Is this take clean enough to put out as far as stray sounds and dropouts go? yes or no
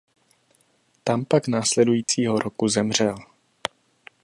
no